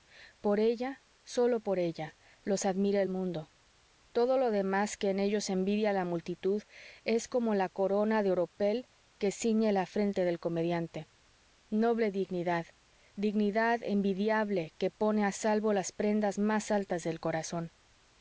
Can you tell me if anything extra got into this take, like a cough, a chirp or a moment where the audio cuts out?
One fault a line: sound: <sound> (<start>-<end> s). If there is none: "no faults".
no faults